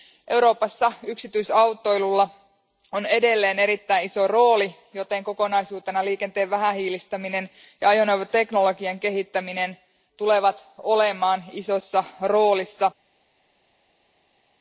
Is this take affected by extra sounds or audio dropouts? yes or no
no